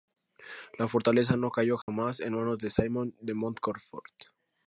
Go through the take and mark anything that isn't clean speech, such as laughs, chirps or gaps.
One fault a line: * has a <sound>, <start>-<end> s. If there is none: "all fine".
* has a dropout, 1.8-1.9 s